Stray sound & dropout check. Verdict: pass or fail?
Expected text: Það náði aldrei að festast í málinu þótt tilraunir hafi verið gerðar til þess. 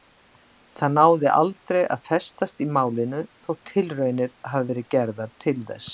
pass